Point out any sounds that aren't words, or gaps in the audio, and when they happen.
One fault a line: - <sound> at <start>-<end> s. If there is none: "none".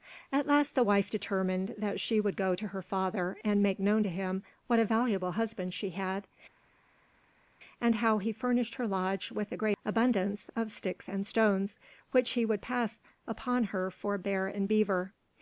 none